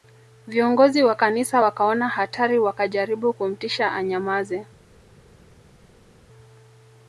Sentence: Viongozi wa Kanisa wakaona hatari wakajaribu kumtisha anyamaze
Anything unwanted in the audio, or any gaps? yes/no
no